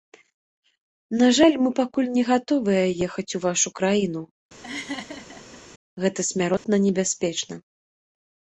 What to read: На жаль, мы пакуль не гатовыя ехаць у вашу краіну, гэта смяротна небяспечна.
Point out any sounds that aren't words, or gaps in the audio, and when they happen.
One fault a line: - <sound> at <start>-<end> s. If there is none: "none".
- laugh at 4.6-5.6 s
- dropout at 6.6-6.6 s